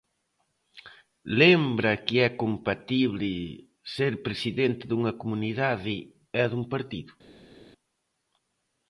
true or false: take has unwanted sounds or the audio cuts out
false